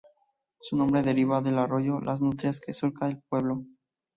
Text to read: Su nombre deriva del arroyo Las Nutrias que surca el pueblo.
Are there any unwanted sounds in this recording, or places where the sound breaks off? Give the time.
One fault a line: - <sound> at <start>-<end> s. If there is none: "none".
none